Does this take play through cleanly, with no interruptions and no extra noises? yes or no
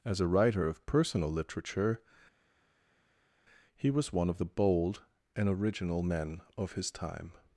yes